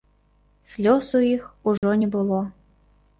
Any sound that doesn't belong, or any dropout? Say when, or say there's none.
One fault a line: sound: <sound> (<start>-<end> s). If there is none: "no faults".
sound: dropout (1.8-1.8 s)